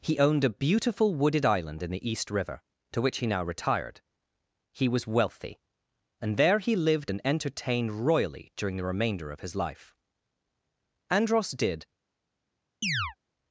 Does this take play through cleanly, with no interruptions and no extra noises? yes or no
no